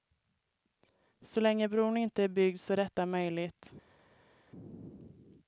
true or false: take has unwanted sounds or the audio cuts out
false